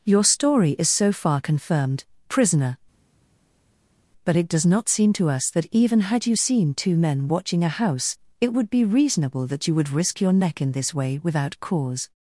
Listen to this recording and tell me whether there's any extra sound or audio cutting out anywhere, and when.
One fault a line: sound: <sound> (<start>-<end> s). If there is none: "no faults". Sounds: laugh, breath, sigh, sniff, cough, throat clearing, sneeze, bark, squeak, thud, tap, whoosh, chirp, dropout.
no faults